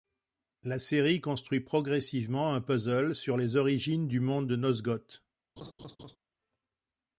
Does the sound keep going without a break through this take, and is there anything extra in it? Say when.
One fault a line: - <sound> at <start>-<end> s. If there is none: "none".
- laugh at 5.6-6.2 s